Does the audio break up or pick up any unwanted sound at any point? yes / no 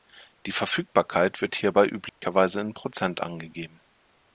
yes